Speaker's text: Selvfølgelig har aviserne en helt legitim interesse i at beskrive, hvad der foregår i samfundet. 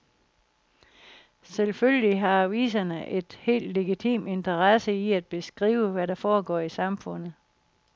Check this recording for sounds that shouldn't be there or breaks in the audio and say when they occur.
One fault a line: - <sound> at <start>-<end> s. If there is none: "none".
none